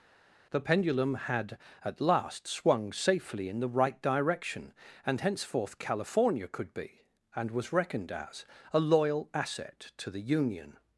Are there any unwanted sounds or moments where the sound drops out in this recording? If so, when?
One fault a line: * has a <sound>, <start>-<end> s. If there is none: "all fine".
all fine